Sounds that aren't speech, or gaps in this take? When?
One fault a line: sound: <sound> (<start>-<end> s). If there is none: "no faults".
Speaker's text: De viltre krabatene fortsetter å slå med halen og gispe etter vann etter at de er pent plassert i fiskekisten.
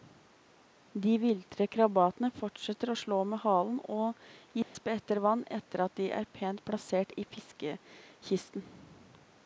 sound: dropout (4.6-4.8 s)